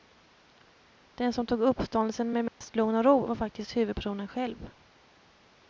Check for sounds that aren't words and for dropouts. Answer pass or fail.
fail